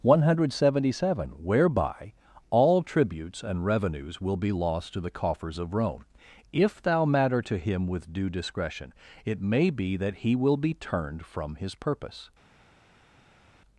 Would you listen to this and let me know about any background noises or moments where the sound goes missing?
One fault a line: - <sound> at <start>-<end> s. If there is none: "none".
none